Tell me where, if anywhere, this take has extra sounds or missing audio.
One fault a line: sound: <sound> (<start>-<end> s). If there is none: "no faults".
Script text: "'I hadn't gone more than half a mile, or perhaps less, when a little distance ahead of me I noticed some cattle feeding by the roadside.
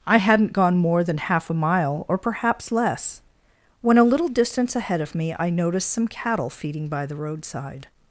no faults